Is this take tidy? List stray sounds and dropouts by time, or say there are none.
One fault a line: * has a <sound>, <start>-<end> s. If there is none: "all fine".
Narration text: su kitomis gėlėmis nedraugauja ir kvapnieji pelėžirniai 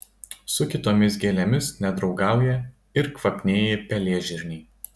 all fine